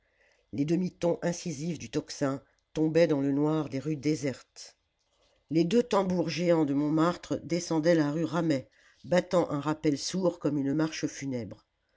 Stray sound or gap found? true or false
false